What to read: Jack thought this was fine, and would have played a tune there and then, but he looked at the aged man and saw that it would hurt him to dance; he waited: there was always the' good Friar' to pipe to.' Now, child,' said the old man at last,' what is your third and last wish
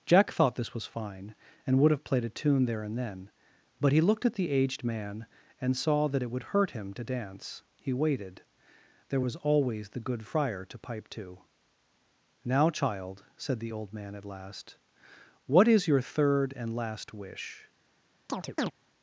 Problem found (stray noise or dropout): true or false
true